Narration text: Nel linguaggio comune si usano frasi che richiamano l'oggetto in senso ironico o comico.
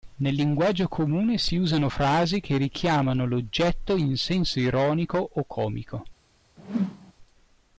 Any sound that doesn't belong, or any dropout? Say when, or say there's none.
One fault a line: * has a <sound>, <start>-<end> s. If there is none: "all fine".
* has a whoosh, 6.6-7.1 s